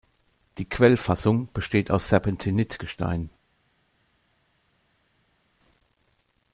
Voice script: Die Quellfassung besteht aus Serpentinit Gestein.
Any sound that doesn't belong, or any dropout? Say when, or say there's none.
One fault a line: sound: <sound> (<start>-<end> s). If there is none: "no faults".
no faults